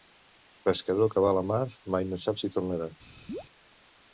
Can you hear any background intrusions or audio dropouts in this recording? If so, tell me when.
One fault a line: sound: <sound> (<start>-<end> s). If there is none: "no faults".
sound: chirp (3.3-3.4 s)